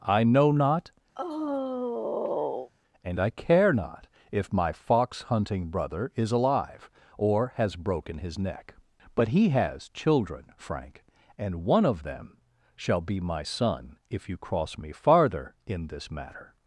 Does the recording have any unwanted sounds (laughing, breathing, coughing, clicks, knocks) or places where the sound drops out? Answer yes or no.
yes